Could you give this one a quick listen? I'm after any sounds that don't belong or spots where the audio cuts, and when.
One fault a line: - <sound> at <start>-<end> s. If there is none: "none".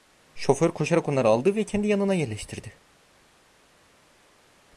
none